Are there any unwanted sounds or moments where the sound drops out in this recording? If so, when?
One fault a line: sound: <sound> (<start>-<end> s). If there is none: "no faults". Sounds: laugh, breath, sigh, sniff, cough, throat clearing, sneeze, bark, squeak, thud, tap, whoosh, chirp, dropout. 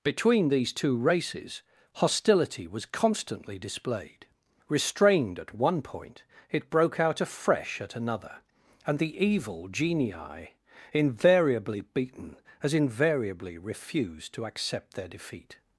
no faults